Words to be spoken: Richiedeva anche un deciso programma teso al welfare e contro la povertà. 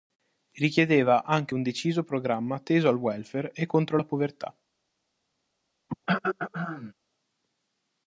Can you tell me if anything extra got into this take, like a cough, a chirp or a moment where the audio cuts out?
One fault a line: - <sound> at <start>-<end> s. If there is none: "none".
- throat clearing at 5.9-6.9 s